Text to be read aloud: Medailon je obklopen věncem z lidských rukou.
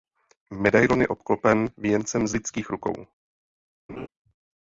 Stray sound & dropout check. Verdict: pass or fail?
fail